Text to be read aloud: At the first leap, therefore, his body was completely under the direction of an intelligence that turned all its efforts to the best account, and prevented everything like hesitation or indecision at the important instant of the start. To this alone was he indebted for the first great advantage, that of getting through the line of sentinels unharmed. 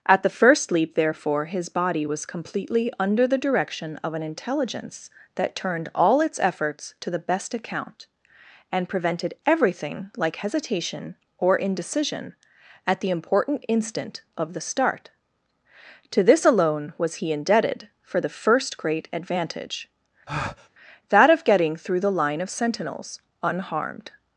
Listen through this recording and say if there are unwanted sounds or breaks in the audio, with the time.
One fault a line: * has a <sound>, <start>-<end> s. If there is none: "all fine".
* has a breath, 20.3-20.7 s